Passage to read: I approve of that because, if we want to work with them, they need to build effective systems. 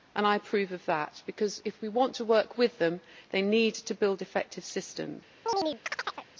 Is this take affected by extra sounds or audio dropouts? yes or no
yes